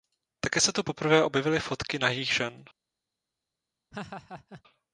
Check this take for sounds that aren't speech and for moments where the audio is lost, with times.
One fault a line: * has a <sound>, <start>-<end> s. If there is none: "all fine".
* has a laugh, 3.9-4.6 s